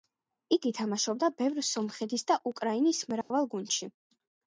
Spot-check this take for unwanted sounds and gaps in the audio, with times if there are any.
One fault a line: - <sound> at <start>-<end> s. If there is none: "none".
- dropout at 3.2-3.3 s